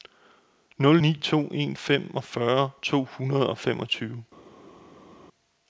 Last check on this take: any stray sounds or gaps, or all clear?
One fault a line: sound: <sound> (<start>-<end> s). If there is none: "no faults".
no faults